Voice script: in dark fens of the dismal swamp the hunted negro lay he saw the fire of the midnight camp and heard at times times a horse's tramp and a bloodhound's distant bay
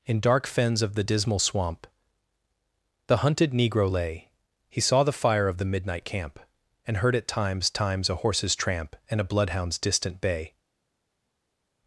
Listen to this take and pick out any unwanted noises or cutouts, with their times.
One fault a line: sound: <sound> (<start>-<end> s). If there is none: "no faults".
no faults